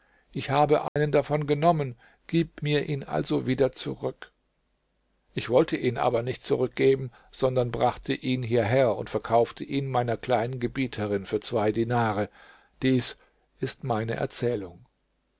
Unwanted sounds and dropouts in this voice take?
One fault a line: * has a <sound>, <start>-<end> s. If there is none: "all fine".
* has a dropout, 0.9-1.0 s